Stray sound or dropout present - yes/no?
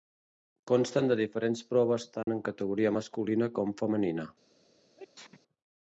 yes